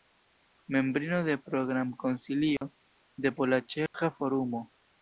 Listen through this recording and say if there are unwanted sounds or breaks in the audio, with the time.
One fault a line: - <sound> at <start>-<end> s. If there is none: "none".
- dropout at 2.6-2.6 s
- dropout at 3.9-3.9 s